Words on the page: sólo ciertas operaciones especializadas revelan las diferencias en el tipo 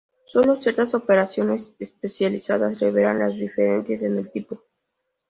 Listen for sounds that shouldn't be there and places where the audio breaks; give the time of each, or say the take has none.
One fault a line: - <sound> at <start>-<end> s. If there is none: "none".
none